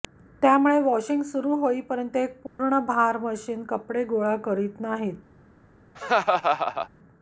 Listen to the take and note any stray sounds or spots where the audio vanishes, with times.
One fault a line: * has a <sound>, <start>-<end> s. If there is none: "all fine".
* has a dropout, 2.5-2.6 s
* has a laugh, 5.9-6.9 s